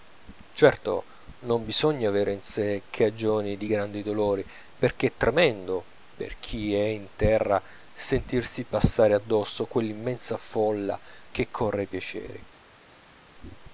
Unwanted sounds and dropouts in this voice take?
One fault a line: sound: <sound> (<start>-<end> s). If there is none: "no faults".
no faults